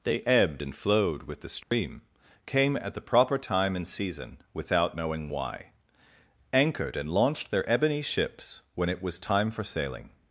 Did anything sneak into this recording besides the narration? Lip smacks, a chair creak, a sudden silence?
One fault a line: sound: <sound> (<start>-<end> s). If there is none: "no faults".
sound: dropout (1.6-1.7 s)